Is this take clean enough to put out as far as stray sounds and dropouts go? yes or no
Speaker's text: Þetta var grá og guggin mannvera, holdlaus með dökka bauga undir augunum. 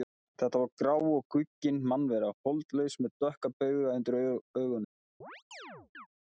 no